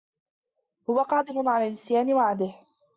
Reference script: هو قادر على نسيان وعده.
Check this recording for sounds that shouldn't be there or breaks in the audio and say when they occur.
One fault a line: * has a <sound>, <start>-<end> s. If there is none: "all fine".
all fine